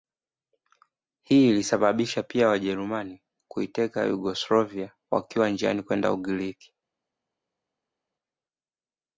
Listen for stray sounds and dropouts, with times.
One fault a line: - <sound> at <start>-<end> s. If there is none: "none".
none